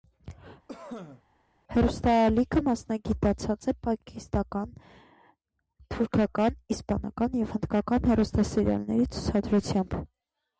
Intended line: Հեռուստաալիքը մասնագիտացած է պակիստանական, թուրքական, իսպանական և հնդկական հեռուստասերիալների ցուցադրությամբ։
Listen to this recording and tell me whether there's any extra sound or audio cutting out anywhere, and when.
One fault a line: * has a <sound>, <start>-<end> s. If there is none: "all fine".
* has a cough, 0.7-1.2 s